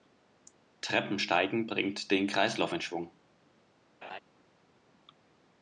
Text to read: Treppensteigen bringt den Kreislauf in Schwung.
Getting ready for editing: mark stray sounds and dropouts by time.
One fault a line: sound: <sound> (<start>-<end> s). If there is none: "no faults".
sound: laugh (4.0-4.2 s)